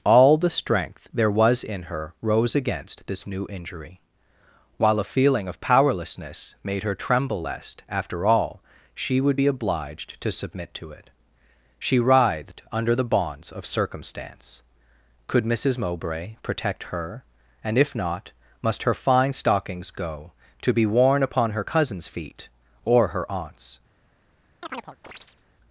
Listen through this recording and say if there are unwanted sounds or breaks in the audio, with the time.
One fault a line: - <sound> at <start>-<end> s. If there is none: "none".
- chirp at 24.6-25.4 s